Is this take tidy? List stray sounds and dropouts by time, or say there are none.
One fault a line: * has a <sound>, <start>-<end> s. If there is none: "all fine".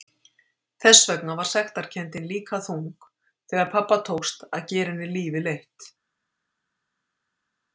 all fine